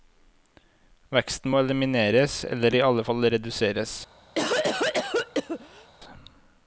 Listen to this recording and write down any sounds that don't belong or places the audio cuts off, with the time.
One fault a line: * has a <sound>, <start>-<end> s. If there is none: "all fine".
* has a cough, 4.4-5.9 s